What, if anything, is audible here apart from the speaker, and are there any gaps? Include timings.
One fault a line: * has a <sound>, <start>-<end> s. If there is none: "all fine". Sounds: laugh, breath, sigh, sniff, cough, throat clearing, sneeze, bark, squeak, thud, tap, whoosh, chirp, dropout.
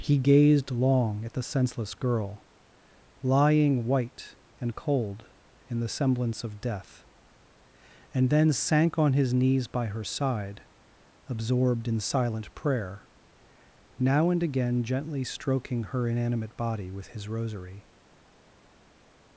all fine